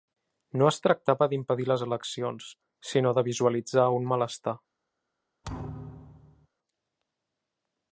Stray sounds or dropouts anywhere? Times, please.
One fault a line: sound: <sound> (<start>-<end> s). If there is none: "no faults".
sound: thud (5.4-6.5 s)